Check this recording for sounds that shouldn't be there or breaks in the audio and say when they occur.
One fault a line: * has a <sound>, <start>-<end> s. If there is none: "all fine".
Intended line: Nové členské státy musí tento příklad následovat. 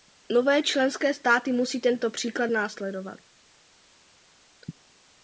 all fine